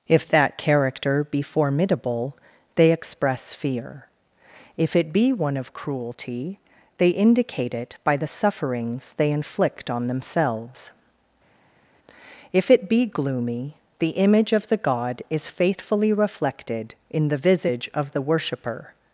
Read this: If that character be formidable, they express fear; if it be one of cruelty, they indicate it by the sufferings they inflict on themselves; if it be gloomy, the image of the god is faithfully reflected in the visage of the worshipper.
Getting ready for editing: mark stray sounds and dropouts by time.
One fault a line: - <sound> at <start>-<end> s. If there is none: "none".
none